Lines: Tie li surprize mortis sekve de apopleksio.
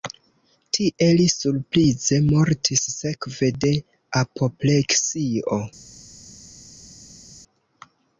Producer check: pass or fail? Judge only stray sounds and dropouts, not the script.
pass